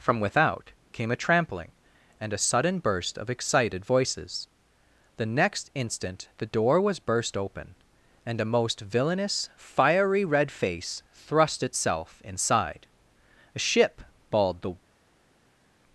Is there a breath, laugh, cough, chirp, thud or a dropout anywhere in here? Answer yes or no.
no